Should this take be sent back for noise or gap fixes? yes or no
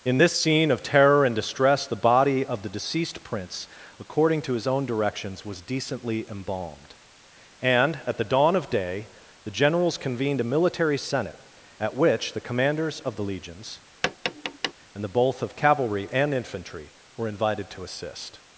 yes